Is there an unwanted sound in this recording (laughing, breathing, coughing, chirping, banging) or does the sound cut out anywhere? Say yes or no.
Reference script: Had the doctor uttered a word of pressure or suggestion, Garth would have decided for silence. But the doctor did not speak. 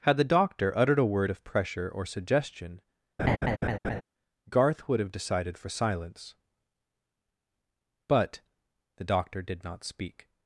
yes